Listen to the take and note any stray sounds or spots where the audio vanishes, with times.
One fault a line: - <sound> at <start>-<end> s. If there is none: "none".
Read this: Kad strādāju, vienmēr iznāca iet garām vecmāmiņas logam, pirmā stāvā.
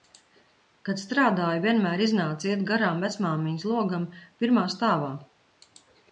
none